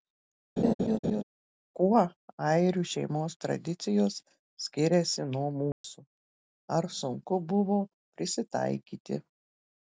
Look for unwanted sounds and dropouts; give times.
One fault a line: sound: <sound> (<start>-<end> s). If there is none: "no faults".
sound: laugh (0.6-1.2 s)
sound: dropout (5.7-5.8 s)